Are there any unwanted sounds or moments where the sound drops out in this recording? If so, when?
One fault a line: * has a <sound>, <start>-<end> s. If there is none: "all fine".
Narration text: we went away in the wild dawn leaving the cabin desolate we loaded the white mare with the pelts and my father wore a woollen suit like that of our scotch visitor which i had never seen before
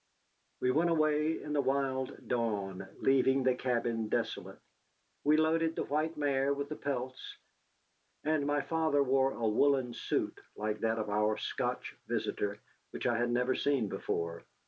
all fine